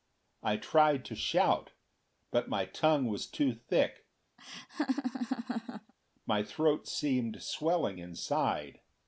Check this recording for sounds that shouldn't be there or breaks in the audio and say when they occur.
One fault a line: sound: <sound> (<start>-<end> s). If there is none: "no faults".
sound: laugh (4.4-5.9 s)